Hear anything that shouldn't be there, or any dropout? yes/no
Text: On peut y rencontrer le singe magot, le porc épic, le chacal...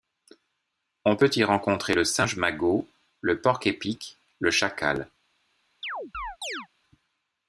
yes